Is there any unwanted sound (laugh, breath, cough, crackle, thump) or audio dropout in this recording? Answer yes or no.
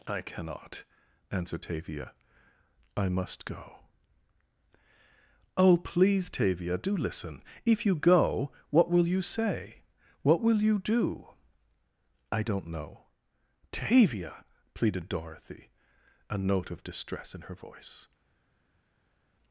no